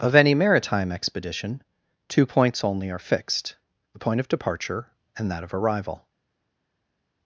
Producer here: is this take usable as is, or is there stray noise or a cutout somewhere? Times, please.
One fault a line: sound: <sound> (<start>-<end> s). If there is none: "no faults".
no faults